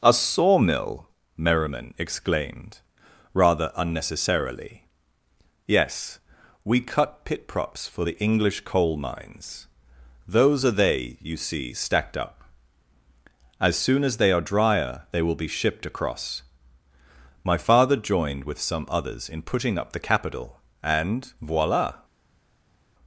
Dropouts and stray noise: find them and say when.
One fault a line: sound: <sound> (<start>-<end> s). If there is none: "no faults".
no faults